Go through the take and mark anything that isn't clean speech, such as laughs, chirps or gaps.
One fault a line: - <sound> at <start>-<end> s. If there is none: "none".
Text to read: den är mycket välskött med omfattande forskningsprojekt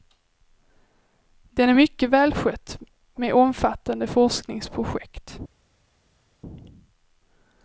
none